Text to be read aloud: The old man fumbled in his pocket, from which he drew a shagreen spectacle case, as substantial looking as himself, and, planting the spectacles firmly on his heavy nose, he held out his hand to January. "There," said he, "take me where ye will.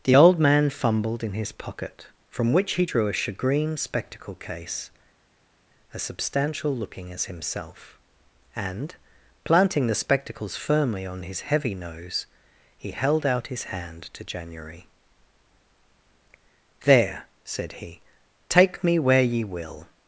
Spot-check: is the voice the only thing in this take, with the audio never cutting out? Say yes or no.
yes